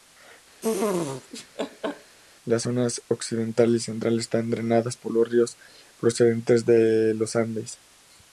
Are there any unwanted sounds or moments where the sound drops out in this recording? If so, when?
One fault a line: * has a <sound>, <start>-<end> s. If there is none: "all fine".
* has a laugh, 0.6-2.2 s